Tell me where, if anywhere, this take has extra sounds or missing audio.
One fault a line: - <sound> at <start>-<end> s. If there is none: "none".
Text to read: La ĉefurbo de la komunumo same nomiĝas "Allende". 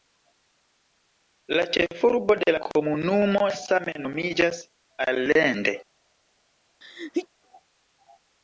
- sneeze at 6.8-7.3 s